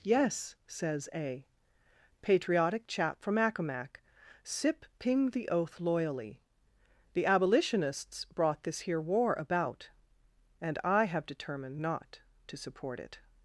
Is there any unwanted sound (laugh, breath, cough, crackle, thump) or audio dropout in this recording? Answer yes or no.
no